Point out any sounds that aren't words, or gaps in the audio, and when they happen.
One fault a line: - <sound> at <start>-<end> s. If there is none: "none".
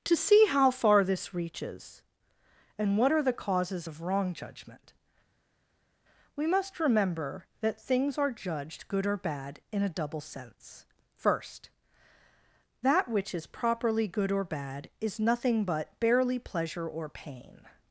none